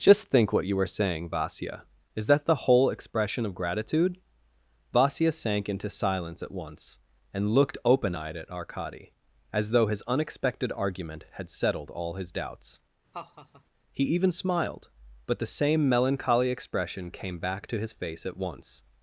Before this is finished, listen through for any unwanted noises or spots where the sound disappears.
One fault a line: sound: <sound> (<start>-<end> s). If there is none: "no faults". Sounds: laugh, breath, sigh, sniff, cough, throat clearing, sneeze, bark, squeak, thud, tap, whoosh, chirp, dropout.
sound: laugh (13.1-13.6 s)